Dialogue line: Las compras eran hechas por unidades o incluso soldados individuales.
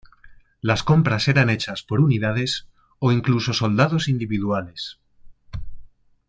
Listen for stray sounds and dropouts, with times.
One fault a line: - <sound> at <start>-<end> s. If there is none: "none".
none